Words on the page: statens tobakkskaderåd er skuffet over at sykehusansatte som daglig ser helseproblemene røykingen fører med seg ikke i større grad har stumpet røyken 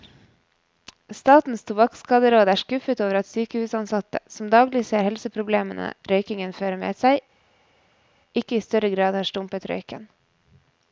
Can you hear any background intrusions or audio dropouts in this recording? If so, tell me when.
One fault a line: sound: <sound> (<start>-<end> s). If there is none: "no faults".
no faults